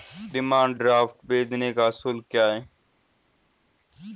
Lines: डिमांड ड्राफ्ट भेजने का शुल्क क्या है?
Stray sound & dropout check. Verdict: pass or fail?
pass